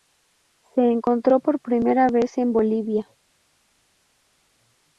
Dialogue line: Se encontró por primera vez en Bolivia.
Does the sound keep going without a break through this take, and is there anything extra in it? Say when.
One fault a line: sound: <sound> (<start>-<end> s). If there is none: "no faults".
no faults